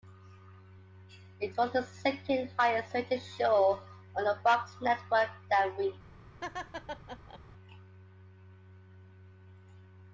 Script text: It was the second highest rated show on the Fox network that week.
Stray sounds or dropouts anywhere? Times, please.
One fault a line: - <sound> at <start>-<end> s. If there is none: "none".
- laugh at 6.4-7.4 s